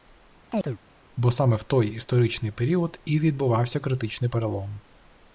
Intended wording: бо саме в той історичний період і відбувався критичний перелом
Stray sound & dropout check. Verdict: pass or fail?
fail